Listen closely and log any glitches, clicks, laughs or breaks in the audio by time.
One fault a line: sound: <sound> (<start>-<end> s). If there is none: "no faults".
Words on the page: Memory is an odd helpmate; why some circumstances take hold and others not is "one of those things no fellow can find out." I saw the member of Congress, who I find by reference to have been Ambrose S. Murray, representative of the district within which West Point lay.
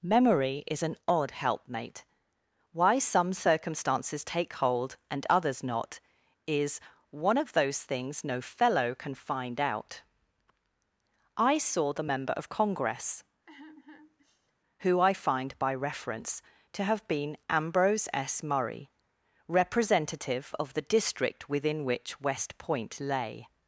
sound: sigh (13.5-14.5 s)